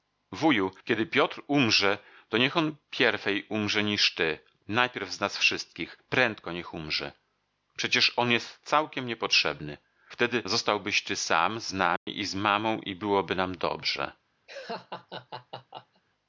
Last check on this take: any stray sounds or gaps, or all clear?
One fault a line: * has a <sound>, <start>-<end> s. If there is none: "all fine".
* has a dropout, 12.0-12.1 s
* has a laugh, 14.5-16.0 s